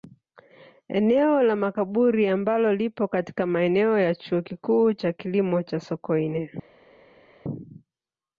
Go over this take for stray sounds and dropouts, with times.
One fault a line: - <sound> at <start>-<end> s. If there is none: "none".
none